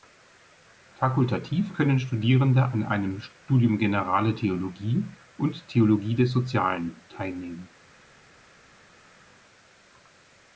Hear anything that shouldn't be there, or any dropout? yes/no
no